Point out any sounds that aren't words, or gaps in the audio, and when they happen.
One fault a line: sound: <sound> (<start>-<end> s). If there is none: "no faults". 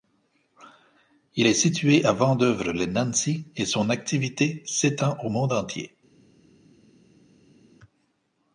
no faults